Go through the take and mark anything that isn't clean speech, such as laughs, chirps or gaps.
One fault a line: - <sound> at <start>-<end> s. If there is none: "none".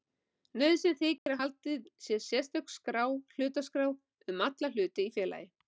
- dropout at 1.2-1.3 s